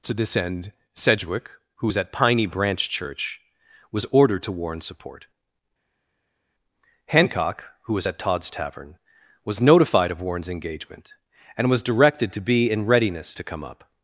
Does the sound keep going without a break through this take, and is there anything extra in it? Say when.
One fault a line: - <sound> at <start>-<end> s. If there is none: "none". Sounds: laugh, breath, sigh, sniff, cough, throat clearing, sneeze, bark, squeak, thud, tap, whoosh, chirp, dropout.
none